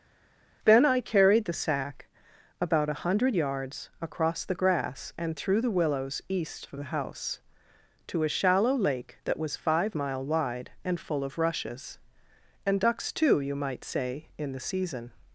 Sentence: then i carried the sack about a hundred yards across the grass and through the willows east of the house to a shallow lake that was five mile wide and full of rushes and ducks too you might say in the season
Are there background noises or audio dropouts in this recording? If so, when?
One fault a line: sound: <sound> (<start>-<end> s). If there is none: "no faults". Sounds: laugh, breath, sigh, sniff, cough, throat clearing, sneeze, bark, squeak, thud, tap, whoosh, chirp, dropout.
no faults